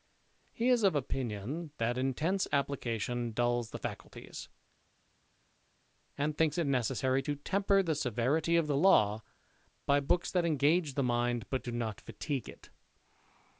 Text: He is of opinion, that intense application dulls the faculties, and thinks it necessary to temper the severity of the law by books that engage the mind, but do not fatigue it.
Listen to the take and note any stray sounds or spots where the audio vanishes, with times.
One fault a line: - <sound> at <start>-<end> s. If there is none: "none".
none